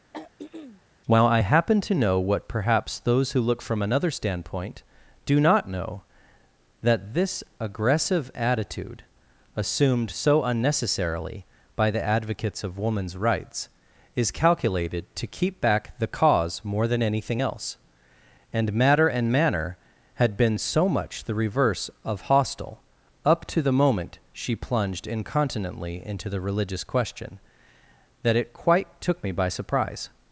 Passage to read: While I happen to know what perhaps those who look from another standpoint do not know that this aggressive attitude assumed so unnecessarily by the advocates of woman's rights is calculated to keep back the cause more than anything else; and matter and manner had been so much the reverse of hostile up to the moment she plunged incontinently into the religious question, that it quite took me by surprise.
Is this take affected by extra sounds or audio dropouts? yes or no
yes